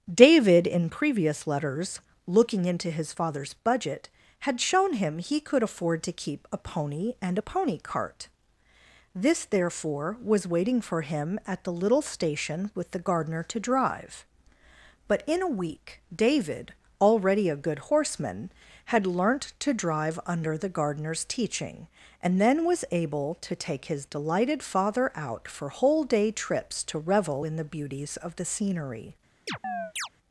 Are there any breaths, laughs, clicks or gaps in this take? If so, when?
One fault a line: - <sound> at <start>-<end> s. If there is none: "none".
- chirp at 29.5-30.1 s